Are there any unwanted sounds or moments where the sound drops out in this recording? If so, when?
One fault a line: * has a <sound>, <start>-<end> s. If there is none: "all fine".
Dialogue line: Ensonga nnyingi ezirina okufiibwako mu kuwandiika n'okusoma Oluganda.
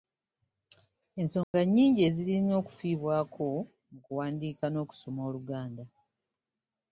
* has a dropout, 1.4-1.5 s